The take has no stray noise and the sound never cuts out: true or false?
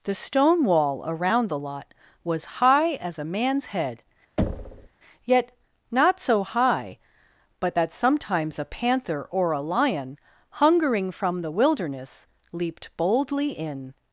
false